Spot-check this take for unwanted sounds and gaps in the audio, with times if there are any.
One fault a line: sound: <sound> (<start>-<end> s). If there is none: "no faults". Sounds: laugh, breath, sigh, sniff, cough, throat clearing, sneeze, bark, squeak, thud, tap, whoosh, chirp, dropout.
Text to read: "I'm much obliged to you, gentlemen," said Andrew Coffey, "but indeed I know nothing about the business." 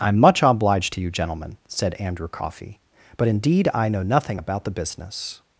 no faults